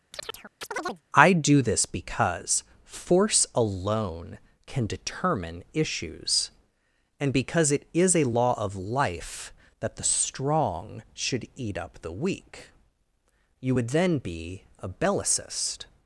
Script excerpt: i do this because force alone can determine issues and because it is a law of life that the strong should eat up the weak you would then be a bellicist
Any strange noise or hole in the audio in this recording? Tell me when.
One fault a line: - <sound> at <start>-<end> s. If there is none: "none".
- chirp at 0.1-1.0 s